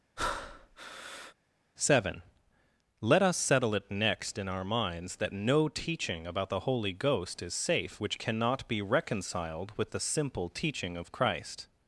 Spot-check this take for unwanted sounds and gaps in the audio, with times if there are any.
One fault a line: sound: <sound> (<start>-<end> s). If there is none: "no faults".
sound: breath (0.2-1.3 s)